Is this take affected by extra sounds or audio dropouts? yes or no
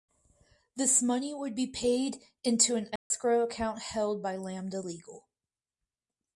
yes